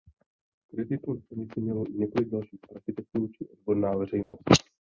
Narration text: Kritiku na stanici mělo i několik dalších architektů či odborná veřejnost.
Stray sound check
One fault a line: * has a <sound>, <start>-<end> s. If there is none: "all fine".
* has a dropout, 4.2-4.3 s